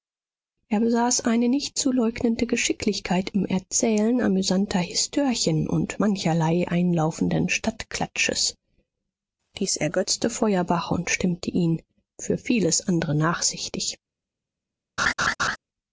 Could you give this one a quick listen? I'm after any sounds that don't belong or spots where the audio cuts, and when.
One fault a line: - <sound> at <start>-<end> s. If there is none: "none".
- laugh at 15.0-15.6 s